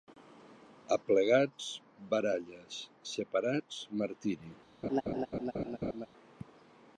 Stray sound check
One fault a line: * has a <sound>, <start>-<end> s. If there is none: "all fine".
* has a laugh, 4.8-6.1 s